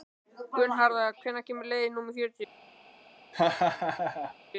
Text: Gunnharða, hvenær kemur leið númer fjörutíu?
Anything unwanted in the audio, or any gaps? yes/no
yes